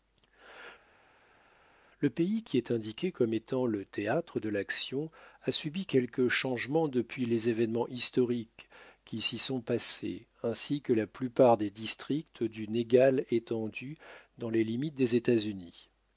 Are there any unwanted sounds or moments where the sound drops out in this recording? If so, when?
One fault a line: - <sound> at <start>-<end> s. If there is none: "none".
none